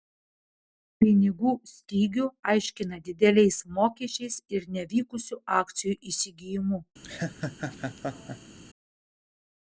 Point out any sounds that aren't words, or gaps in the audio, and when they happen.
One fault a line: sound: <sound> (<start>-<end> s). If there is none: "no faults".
sound: laugh (7.0-8.6 s)